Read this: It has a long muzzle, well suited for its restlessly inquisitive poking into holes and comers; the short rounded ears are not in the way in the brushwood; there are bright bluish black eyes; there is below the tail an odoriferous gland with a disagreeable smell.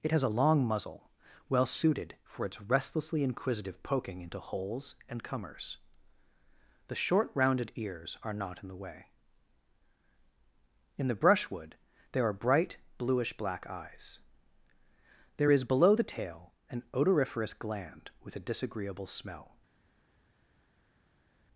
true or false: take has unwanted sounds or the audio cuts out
false